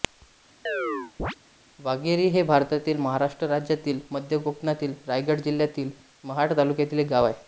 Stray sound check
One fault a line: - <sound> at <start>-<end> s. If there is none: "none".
- chirp at 0.7-1.4 s